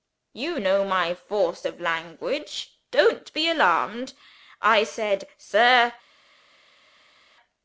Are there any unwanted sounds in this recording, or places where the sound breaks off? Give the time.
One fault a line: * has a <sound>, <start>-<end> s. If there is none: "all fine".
all fine